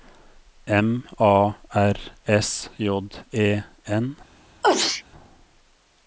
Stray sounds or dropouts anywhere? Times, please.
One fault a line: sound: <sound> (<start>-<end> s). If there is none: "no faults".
sound: sneeze (4.6-5.0 s)